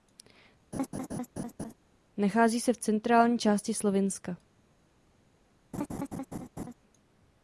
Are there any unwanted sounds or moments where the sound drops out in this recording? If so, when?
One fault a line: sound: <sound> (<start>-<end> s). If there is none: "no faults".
sound: laugh (0.7-1.7 s)
sound: laugh (5.7-6.7 s)